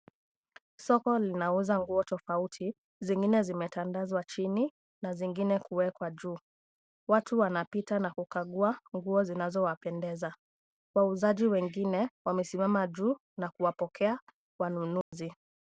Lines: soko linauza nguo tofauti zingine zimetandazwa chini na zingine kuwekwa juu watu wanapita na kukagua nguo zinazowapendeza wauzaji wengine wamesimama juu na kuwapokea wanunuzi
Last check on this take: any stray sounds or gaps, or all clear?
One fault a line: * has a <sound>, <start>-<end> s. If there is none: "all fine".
* has a dropout, 15.0-15.1 s